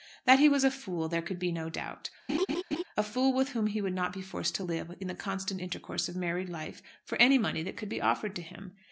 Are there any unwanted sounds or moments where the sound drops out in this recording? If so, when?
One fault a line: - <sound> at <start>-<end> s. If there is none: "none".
- laugh at 2.3-2.8 s